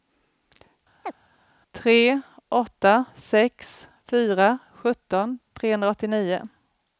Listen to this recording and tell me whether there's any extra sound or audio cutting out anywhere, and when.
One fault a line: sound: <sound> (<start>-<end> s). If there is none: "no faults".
sound: chirp (1.0-1.1 s)